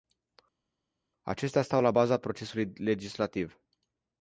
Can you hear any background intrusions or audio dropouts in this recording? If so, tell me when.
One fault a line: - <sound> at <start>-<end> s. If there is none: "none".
none